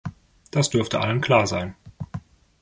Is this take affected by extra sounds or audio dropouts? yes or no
no